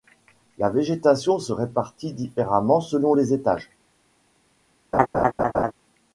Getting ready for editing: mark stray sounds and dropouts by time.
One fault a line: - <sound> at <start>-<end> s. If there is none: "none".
- laugh at 4.9-5.7 s